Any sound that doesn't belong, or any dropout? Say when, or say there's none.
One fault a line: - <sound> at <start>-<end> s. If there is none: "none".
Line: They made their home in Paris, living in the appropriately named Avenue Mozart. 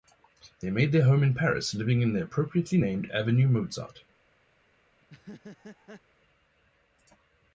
- laugh at 5.0-6.0 s